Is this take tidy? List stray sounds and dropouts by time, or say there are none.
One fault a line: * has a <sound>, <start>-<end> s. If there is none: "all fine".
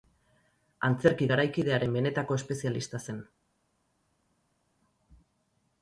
all fine